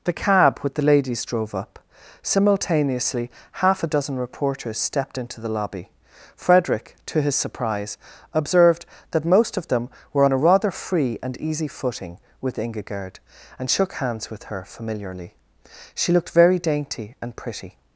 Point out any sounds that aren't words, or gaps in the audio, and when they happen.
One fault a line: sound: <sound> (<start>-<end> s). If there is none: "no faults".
no faults